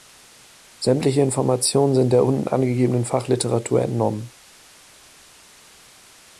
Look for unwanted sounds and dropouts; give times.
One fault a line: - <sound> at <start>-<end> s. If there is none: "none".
none